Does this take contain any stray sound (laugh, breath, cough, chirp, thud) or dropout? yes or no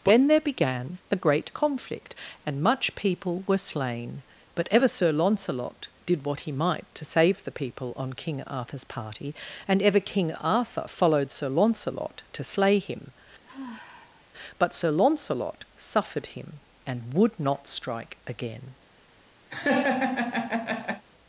yes